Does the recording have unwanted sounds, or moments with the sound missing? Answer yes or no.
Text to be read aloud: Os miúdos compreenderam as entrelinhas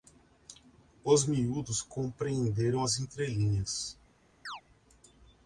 yes